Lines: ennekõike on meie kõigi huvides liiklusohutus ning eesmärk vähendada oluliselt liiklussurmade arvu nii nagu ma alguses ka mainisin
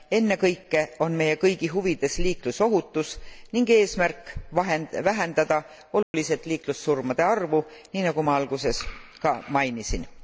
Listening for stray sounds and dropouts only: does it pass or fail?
fail